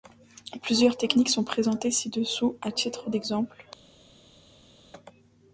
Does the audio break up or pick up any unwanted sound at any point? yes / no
no